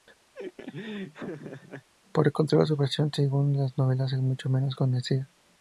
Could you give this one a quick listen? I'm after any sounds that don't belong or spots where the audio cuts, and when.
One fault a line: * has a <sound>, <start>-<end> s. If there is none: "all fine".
* has a laugh, 0.3-1.9 s